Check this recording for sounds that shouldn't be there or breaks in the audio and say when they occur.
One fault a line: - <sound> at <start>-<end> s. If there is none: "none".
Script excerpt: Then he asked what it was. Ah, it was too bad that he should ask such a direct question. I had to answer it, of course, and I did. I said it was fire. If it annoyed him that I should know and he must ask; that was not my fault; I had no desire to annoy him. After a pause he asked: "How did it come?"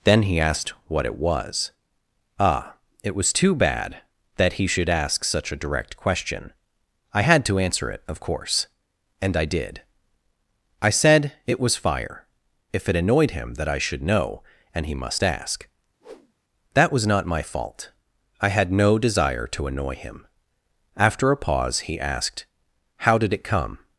- whoosh at 16.0-16.3 s